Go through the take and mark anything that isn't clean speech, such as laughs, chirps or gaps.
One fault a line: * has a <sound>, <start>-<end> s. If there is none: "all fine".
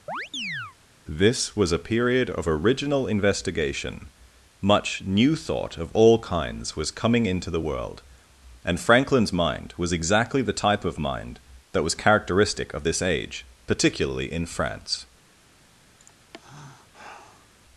* has a chirp, 0.1-0.8 s
* has a sigh, 16.0-17.5 s